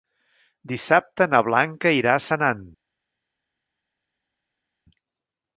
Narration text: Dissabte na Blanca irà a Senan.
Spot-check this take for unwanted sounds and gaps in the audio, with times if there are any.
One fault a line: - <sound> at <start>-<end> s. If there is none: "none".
none